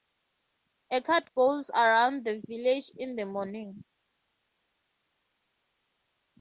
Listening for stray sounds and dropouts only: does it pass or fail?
pass